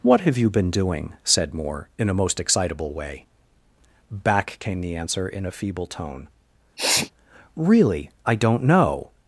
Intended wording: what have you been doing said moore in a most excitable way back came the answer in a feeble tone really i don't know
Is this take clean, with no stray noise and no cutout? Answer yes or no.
no